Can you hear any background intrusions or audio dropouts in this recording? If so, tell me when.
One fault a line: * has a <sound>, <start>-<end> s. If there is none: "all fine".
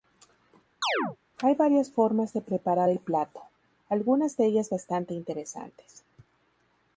* has a chirp, 0.8-1.2 s